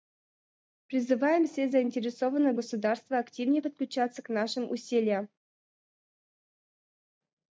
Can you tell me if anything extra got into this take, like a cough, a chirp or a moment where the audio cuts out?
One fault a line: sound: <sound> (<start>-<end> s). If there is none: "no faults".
no faults